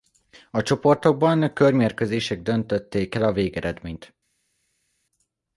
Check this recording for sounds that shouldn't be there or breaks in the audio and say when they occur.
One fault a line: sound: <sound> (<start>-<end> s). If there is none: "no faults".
no faults